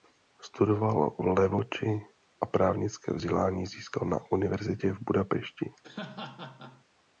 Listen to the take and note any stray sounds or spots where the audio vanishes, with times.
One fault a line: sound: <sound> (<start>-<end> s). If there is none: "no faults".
sound: laugh (5.8-6.8 s)